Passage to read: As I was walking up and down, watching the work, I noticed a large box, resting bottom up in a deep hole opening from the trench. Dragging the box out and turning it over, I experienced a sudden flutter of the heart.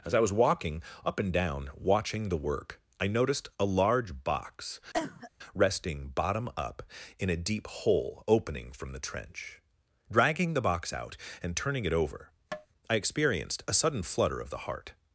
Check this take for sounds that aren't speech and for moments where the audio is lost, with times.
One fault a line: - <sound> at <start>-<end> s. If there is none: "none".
- cough at 4.9-5.3 s
- tap at 12.5-12.7 s